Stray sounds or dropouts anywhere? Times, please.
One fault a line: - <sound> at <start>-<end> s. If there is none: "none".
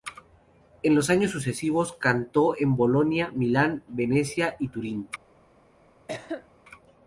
- cough at 6.1-6.5 s